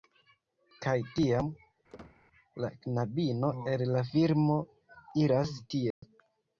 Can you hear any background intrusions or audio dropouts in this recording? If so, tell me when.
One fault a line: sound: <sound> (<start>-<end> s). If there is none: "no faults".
sound: squeak (1.9-2.2 s)
sound: dropout (5.9-6.0 s)